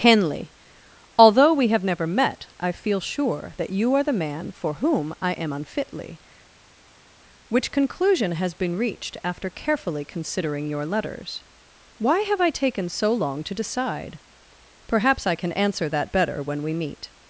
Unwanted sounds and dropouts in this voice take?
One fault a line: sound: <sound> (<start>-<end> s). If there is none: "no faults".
no faults